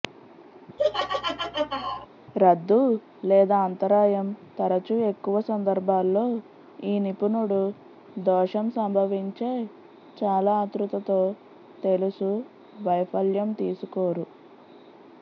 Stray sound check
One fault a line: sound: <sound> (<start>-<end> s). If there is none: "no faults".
sound: laugh (0.8-2.1 s)